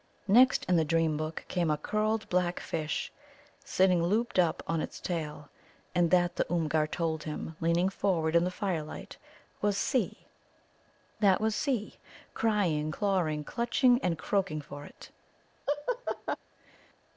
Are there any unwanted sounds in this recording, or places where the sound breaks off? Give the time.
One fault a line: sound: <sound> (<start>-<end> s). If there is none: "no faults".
sound: laugh (15.7-16.4 s)